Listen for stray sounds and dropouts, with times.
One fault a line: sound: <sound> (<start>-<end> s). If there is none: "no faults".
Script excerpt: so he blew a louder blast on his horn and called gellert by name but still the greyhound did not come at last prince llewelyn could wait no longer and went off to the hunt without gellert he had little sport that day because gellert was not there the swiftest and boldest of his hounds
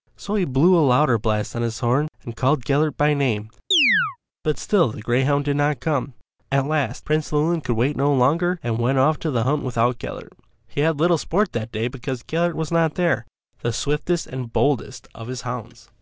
sound: chirp (3.7-4.2 s)